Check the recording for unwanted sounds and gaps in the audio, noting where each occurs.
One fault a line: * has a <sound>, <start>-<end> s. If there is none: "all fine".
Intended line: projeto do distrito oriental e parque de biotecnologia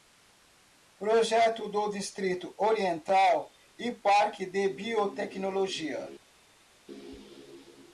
all fine